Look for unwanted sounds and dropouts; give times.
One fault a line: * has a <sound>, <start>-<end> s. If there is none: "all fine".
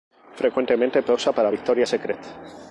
all fine